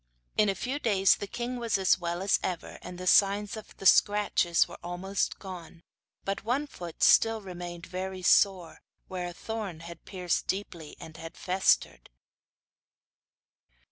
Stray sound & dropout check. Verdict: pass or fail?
pass